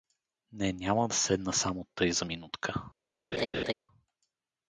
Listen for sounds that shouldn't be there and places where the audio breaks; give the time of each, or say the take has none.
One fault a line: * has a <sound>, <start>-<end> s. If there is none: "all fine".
* has a laugh, 3.3-3.7 s